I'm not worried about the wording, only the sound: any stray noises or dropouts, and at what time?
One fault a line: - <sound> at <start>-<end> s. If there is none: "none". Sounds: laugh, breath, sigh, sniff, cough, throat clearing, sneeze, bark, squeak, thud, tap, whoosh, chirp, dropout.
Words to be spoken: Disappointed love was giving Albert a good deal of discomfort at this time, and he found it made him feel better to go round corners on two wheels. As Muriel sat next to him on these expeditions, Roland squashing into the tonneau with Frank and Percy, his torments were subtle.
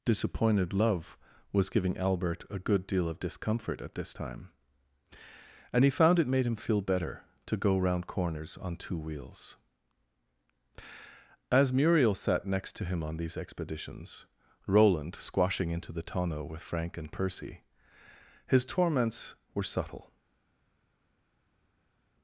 none